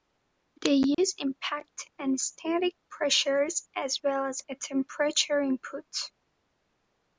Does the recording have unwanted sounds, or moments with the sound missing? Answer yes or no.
yes